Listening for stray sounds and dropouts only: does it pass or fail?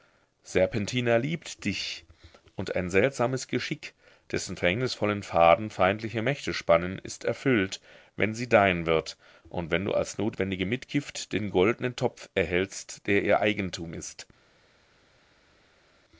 pass